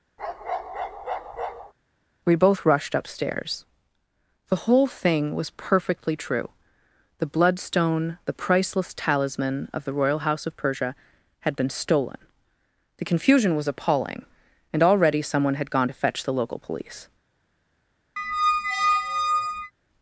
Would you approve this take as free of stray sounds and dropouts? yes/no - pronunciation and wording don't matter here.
no